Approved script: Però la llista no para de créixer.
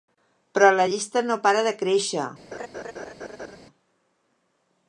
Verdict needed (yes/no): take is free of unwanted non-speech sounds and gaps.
no